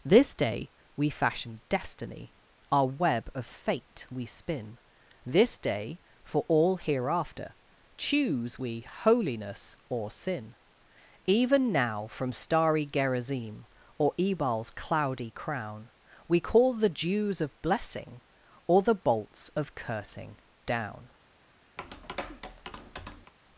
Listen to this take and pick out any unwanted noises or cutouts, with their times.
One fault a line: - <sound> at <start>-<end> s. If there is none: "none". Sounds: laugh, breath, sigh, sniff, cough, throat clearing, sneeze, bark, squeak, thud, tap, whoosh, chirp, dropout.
- tap at 21.8-23.3 s